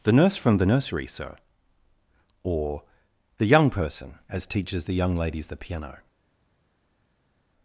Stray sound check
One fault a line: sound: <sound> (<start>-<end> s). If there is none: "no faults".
no faults